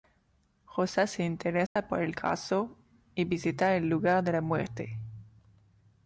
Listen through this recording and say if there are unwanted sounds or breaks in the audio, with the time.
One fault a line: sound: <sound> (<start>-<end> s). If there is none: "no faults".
sound: dropout (1.7-1.8 s)